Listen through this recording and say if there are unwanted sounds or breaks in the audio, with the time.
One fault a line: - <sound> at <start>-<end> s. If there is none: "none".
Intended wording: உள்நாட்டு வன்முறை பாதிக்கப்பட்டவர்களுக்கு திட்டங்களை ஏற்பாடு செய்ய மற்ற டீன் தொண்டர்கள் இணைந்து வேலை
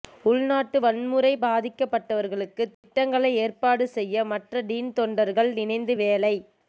- dropout at 2.7-2.8 s